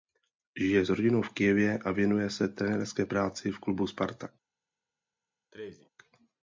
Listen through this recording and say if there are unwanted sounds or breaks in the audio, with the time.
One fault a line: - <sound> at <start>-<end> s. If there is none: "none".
- sneeze at 5.5-5.9 s